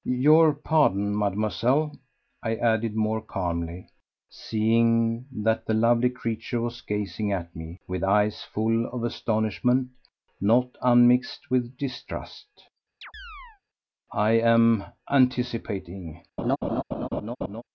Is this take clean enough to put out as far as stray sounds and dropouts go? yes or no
no